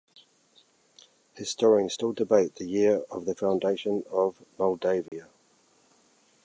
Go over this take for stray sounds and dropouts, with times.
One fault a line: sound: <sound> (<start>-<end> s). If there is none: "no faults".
sound: dropout (5.1-5.1 s)